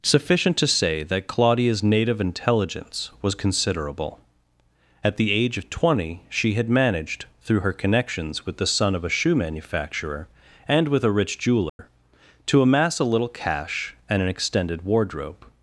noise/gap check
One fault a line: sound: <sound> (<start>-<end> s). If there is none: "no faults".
sound: dropout (11.7-11.8 s)